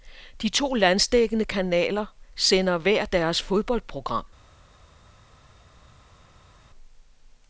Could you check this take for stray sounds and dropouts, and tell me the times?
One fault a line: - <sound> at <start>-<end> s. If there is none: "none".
none